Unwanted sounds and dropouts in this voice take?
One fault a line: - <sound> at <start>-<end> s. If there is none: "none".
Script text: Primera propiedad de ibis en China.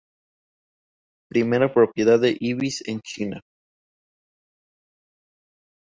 none